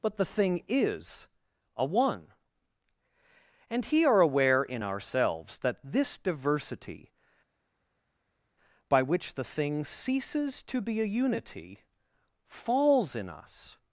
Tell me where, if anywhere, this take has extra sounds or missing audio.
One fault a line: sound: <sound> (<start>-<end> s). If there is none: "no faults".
no faults